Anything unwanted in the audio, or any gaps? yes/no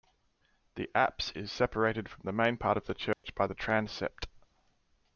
yes